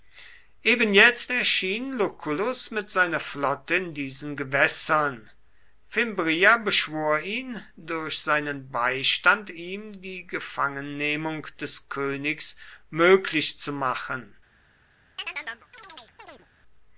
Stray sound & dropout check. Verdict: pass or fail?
fail